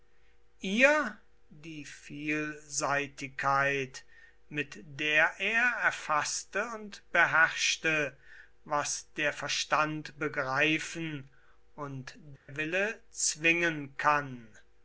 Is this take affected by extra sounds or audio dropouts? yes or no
yes